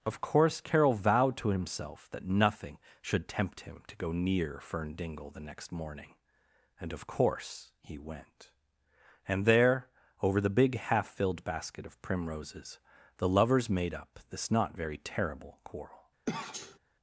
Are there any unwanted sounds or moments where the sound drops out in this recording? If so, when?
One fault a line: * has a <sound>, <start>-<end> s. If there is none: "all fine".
* has a sneeze, 16.3-16.8 s